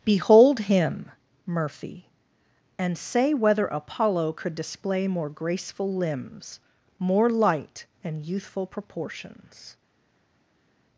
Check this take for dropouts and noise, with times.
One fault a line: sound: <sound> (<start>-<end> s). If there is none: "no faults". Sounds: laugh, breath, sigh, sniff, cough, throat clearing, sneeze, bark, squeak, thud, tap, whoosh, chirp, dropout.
no faults